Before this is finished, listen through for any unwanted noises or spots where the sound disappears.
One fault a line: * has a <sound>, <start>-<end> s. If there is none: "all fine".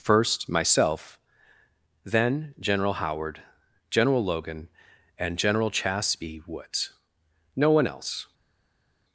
all fine